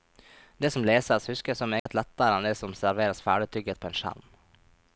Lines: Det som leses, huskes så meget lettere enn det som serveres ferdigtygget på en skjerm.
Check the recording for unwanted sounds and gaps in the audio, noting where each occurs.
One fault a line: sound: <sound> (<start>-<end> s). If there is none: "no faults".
sound: dropout (1.8-1.9 s)